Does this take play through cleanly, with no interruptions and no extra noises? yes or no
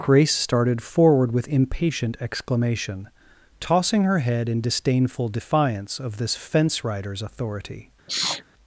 no